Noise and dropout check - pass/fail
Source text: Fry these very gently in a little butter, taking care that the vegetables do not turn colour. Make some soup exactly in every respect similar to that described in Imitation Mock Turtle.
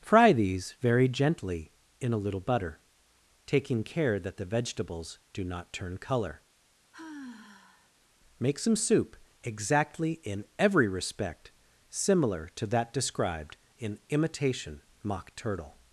fail